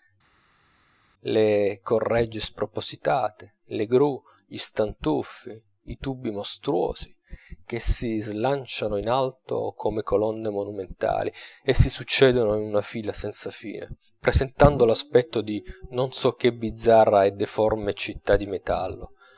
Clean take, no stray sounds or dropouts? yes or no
yes